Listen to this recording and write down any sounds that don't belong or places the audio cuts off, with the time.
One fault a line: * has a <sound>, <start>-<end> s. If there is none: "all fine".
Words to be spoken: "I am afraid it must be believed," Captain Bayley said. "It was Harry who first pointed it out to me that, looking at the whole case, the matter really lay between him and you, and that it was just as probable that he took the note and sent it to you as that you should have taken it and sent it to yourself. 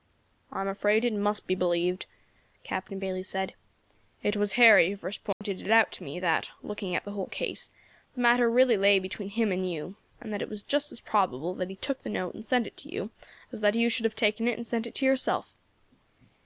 * has a dropout, 5.3-5.4 s